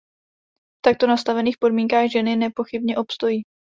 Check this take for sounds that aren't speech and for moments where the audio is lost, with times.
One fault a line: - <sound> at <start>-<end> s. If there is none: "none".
none